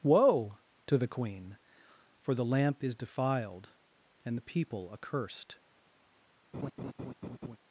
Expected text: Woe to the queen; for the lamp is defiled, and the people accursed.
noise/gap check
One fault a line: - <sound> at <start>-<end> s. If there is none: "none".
- laugh at 6.5-7.6 s